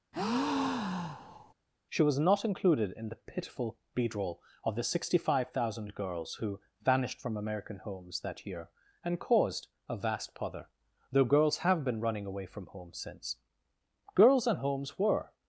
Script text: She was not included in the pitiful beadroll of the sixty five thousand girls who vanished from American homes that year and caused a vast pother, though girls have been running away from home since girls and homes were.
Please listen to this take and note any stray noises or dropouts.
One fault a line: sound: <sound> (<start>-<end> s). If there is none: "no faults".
sound: breath (0.1-1.5 s)